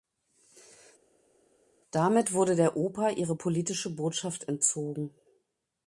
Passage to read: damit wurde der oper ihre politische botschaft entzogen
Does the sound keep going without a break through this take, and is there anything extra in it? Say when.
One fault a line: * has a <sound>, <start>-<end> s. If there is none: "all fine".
all fine